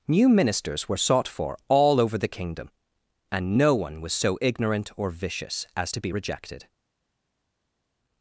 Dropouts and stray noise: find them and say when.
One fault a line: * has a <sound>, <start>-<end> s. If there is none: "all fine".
all fine